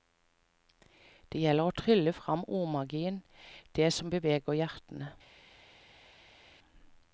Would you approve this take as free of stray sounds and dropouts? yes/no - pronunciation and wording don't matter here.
yes